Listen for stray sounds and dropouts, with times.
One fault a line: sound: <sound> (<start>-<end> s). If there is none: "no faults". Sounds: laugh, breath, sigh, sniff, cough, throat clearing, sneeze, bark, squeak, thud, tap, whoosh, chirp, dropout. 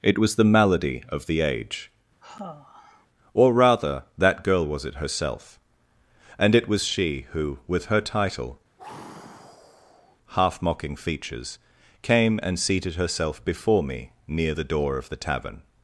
sound: sigh (2.2-3.1 s)
sound: sigh (8.8-10.2 s)